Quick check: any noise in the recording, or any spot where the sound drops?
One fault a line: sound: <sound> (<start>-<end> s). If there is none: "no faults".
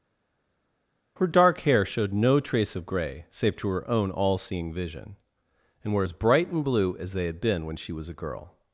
no faults